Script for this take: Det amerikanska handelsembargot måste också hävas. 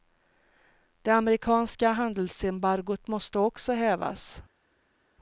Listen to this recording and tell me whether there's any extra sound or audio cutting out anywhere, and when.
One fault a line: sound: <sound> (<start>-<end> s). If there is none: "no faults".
no faults